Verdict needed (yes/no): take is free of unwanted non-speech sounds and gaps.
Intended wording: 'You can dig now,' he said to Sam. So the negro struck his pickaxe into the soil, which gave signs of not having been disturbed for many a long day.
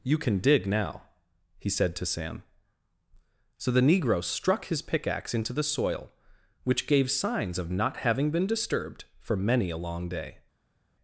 yes